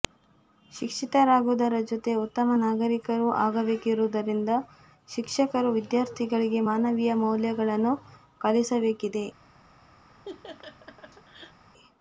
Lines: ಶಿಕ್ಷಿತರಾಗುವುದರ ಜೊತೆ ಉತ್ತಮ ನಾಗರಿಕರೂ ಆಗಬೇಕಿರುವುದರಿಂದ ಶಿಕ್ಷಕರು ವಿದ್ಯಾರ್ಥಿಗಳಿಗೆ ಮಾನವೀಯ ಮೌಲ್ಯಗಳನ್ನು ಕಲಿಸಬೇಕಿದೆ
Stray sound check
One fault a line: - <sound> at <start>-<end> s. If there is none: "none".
- laugh at 10.1-11.6 s